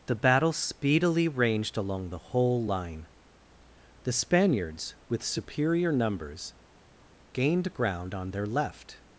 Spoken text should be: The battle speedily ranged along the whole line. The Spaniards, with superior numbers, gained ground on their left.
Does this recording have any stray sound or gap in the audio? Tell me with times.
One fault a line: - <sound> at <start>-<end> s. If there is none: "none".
none